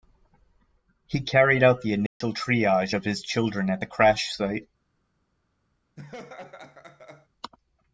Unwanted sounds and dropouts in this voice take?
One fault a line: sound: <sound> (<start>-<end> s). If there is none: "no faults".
sound: dropout (2.1-2.2 s)
sound: laugh (6.0-7.3 s)